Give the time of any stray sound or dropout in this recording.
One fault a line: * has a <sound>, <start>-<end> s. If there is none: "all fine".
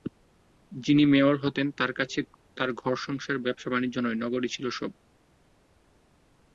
all fine